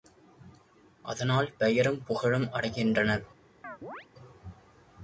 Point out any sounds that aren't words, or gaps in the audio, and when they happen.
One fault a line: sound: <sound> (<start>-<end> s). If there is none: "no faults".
sound: chirp (3.6-4.1 s)